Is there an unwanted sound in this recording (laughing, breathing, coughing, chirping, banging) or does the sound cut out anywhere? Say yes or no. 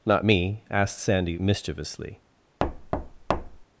yes